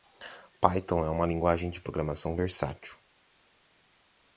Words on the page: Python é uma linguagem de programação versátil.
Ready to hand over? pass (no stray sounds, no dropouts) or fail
pass